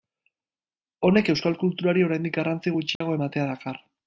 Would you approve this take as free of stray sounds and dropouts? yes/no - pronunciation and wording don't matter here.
no